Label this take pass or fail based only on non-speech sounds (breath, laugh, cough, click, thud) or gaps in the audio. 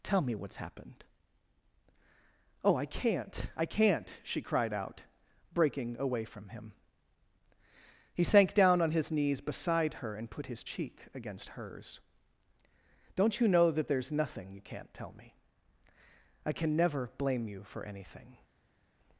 pass